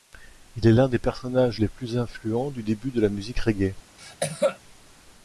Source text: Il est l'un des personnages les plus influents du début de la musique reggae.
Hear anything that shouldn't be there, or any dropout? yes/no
yes